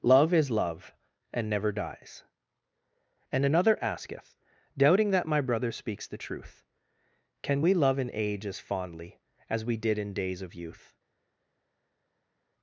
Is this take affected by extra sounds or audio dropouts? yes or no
no